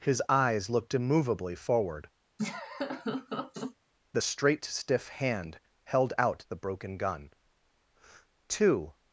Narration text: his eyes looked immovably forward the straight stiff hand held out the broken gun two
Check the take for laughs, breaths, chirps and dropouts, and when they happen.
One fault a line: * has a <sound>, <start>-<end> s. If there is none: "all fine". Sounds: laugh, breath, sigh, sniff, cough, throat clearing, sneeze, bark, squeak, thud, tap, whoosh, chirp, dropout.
* has a laugh, 2.4-3.7 s